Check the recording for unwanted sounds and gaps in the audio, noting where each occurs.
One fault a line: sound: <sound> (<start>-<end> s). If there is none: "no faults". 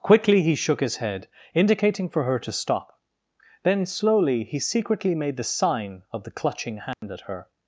sound: dropout (6.9-7.0 s)